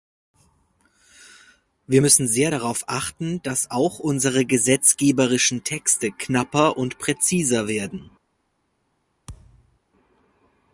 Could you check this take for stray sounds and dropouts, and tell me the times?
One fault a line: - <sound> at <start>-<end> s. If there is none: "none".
- thud at 9.3-9.8 s